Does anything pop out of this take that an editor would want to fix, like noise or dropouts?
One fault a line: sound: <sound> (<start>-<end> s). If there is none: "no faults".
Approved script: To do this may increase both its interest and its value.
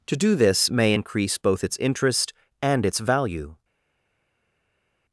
no faults